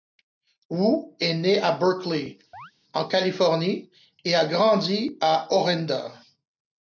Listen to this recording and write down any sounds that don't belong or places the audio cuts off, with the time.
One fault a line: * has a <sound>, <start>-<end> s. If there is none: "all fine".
* has a chirp, 2.5-2.7 s